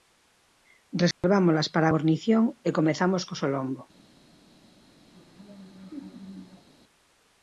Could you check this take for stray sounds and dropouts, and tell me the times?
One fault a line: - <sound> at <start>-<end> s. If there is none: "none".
- dropout at 1.1-1.2 s
- laugh at 5.1-6.7 s